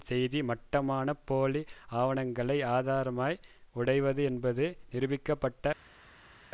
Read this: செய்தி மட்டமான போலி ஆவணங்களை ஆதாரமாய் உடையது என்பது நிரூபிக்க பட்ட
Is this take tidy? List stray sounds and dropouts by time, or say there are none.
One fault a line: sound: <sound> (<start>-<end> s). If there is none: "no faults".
no faults